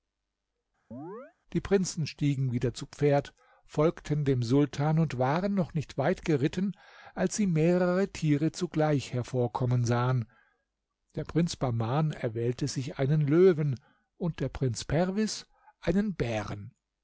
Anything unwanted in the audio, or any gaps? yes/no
yes